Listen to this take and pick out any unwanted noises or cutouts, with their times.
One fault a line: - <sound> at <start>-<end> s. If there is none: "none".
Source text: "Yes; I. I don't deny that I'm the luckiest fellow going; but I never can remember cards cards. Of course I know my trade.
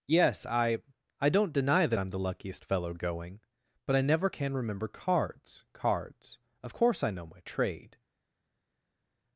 none